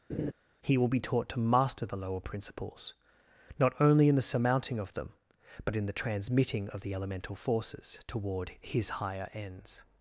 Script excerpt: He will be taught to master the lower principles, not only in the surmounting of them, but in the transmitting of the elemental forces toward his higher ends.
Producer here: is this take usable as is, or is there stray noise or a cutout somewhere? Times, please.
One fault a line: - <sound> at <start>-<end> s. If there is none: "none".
- laugh at 0.1-0.3 s